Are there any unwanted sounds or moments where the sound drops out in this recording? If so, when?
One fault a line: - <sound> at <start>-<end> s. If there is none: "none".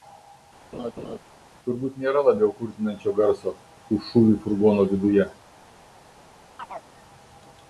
- laugh at 0.7-1.2 s
- chirp at 6.6-6.9 s